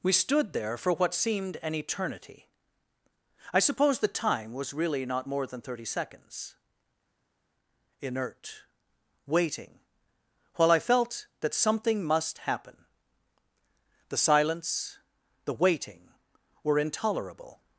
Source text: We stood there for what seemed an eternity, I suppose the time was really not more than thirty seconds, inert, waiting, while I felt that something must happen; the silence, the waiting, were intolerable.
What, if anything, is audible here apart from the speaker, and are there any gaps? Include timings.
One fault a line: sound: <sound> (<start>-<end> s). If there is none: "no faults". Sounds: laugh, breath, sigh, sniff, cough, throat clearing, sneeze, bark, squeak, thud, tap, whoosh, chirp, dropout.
no faults